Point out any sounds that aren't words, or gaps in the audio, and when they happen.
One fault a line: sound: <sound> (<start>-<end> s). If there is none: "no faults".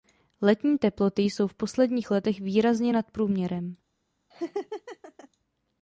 sound: laugh (4.3-5.3 s)